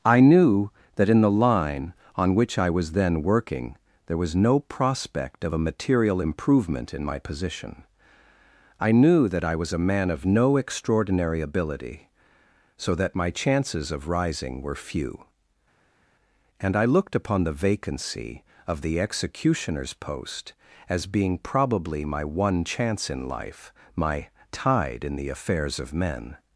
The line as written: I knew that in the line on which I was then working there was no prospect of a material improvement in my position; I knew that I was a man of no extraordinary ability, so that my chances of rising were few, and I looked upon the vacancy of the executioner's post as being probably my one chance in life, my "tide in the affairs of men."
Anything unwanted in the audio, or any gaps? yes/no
no